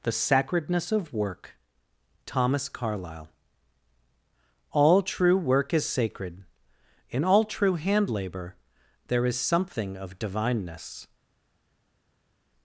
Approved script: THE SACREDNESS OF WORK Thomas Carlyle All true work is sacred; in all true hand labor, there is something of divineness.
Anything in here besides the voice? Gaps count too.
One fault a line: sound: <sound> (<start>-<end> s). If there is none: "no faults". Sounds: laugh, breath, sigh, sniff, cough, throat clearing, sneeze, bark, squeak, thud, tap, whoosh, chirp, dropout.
no faults